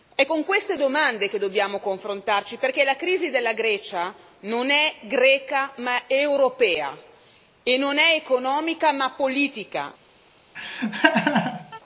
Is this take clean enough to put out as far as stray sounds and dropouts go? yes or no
no